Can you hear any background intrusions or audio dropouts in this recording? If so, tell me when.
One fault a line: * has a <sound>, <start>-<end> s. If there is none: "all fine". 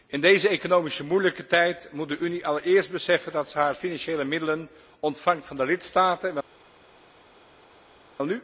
all fine